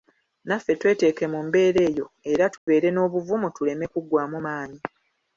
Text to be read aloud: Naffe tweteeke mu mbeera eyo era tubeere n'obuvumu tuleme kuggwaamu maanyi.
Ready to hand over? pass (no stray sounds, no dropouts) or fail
fail